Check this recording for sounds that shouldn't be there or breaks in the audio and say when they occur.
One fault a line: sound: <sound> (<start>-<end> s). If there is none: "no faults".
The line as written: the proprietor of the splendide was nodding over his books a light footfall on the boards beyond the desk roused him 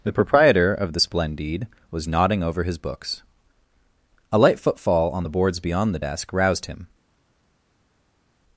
no faults